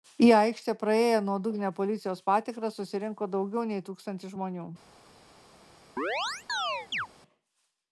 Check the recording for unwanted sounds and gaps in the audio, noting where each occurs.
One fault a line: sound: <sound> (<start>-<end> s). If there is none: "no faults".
sound: chirp (6.0-7.1 s)